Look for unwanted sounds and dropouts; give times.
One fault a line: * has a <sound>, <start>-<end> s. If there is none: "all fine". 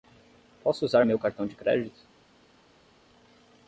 all fine